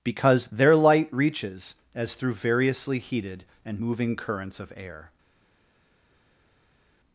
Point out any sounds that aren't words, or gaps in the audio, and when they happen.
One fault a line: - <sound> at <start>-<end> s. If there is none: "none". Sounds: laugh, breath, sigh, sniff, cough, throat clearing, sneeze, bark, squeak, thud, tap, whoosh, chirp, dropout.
none